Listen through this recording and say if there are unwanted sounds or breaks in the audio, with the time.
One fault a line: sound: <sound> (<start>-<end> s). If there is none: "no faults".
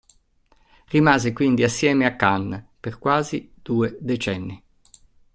no faults